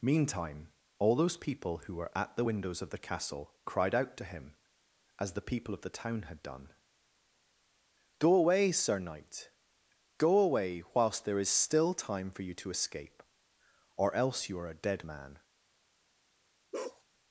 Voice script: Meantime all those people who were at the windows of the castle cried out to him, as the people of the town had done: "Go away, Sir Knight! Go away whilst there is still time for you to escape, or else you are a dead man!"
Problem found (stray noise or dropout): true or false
true